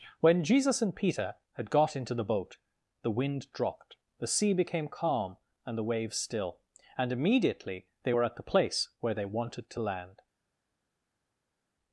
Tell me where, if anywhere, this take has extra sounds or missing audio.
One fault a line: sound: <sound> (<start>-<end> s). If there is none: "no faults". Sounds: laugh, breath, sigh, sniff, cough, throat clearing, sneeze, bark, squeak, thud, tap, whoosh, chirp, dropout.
no faults